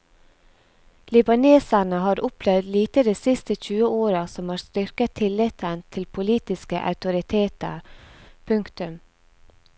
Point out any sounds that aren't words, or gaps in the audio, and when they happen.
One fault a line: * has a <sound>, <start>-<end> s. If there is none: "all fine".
all fine